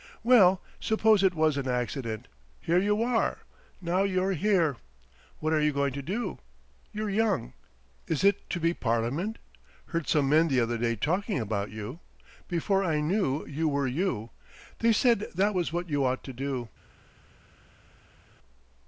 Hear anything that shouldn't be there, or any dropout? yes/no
no